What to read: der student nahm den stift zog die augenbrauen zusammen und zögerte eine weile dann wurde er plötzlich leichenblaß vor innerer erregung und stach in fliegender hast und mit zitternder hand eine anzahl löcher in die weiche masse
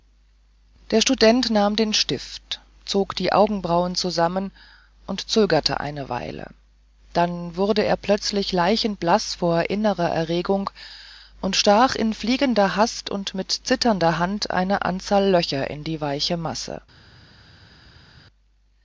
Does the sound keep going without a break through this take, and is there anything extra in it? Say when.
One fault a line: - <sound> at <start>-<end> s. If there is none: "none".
none